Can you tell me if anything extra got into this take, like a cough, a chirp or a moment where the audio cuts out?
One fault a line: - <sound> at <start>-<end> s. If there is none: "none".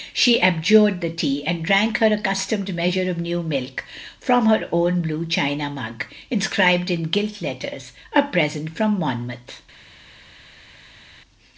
none